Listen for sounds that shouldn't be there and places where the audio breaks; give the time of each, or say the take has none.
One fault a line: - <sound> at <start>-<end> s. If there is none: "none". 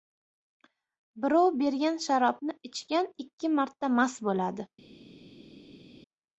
none